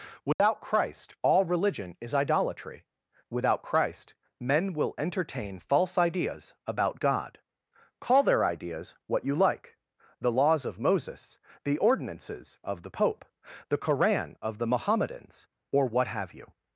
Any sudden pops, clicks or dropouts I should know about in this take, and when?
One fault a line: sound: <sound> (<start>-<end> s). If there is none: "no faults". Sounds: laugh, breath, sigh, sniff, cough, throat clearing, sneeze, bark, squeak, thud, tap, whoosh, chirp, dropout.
sound: dropout (0.3-0.4 s)